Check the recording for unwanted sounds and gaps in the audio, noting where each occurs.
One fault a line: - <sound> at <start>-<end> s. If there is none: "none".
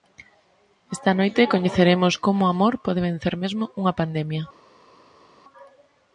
none